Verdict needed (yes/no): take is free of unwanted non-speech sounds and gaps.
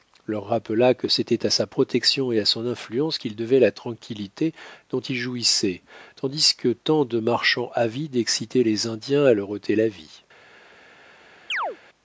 no